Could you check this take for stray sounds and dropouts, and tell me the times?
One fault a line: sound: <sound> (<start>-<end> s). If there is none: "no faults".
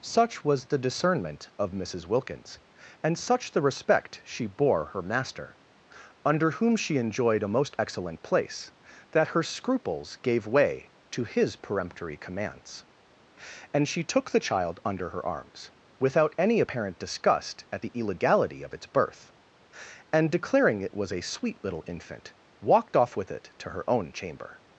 no faults